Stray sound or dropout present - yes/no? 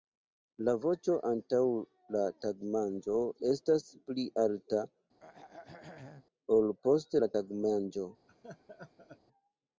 yes